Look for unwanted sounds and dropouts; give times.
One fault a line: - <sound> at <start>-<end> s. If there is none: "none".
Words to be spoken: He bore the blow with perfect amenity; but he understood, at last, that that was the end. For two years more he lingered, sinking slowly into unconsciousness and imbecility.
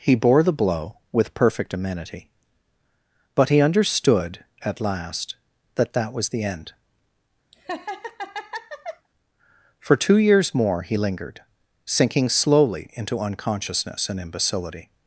- laugh at 7.5-9.1 s